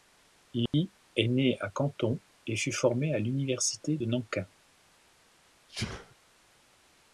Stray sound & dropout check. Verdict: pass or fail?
fail